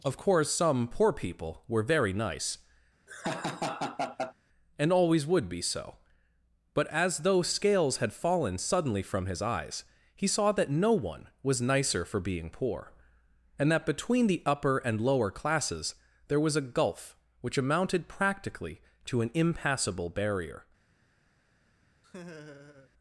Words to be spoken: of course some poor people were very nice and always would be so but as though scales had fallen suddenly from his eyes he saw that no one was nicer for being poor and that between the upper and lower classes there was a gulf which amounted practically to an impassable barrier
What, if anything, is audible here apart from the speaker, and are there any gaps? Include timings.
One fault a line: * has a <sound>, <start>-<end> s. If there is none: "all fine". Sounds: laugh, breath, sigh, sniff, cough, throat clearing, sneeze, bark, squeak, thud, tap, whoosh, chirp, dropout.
* has a laugh, 3.1-4.3 s
* has a laugh, 22.0-22.9 s